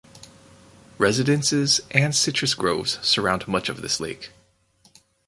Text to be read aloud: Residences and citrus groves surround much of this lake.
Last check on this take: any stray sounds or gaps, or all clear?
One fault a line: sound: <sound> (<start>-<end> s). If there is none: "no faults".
no faults